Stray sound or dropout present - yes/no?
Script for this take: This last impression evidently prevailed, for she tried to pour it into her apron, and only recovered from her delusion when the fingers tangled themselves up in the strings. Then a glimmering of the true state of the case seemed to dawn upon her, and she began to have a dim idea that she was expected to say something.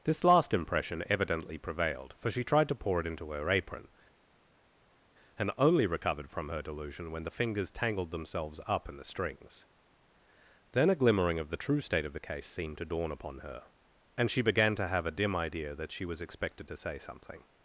no